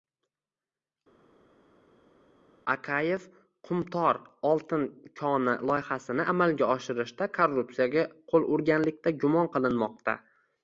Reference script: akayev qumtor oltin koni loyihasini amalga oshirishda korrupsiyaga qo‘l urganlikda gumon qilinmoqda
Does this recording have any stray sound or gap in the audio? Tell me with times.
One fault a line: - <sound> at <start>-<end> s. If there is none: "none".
none